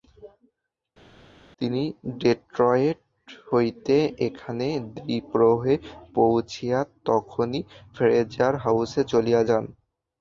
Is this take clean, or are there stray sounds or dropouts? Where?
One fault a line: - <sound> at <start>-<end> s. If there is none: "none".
none